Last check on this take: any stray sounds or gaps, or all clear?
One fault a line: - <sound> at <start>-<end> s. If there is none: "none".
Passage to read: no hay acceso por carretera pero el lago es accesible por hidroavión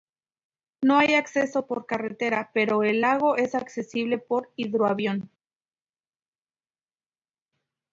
none